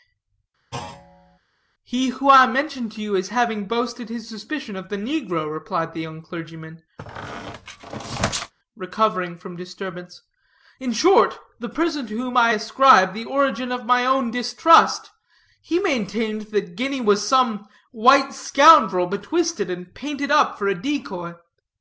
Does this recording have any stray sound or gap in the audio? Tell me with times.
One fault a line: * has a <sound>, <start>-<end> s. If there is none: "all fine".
* has a thud, 0.7-1.4 s
* has a squeak, 7.0-8.5 s